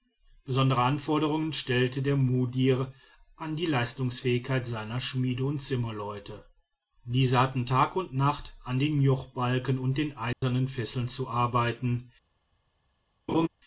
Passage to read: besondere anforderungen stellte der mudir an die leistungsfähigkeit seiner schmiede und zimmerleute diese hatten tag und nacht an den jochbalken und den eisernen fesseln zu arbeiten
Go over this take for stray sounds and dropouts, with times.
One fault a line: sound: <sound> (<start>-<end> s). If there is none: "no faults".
sound: dropout (10.3-10.4 s)
sound: laugh (13.3-13.5 s)